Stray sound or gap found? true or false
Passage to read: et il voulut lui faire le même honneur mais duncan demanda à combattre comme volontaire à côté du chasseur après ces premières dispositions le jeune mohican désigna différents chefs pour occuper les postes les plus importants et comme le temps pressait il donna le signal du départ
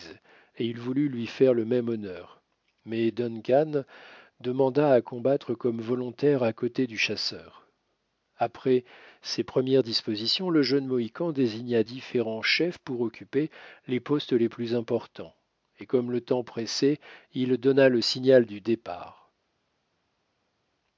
false